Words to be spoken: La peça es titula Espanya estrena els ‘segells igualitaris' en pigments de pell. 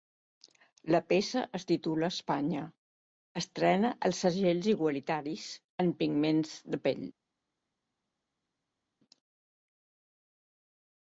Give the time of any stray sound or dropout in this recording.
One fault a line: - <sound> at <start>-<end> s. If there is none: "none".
none